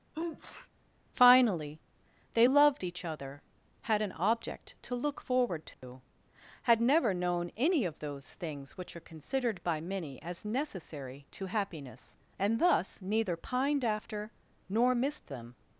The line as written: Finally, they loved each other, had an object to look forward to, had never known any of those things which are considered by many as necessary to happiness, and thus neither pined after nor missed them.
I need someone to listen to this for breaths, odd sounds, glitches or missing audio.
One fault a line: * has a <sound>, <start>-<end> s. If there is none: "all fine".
* has a sneeze, 0.1-0.7 s
* has a dropout, 5.7-5.8 s